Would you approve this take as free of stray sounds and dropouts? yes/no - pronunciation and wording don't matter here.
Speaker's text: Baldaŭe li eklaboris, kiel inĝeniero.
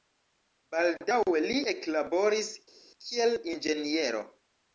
yes